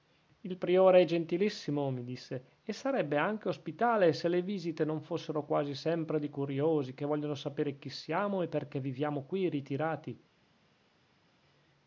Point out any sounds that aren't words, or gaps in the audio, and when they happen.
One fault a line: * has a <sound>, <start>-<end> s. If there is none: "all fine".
all fine